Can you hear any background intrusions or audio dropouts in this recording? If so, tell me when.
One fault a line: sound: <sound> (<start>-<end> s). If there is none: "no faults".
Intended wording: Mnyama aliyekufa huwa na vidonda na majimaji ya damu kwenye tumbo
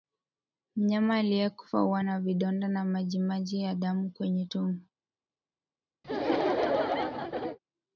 sound: laugh (6.0-7.6 s)